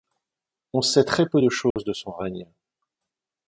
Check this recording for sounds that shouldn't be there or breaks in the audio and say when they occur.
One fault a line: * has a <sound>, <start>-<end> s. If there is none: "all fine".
* has a dropout, 1.7-1.8 s